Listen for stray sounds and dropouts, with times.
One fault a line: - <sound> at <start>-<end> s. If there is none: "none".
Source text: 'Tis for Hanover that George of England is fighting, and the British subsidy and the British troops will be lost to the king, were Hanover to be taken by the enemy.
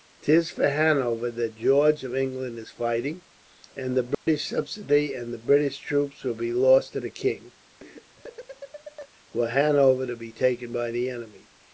- dropout at 4.1-4.3 s
- laugh at 7.8-9.1 s